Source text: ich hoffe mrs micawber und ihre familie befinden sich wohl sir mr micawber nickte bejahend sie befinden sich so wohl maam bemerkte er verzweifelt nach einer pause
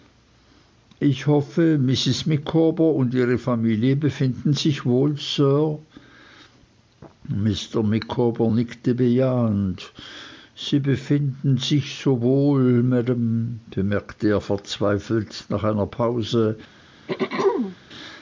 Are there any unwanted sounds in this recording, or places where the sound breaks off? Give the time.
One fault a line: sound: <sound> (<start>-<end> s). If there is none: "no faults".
sound: throat clearing (17.1-17.8 s)